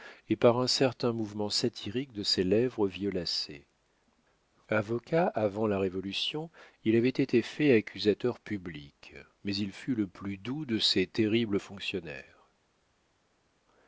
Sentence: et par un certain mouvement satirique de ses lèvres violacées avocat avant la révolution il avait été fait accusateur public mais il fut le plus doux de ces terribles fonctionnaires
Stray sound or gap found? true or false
false